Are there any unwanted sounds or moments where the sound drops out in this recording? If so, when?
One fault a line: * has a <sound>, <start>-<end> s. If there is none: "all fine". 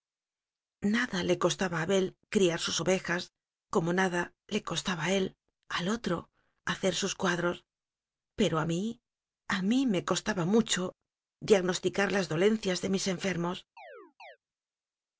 * has a chirp, 13.8-14.4 s